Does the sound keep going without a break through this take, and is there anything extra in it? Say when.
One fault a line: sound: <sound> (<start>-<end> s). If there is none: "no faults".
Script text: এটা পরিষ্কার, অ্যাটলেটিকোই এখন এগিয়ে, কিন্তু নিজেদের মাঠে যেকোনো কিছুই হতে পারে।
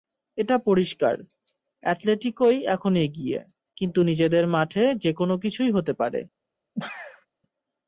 sound: sneeze (6.7-7.3 s)